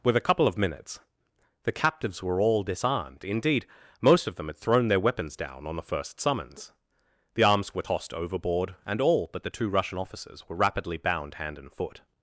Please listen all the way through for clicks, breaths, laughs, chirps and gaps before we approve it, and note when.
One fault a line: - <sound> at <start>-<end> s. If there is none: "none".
none